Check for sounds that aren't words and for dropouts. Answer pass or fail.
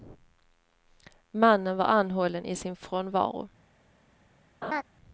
fail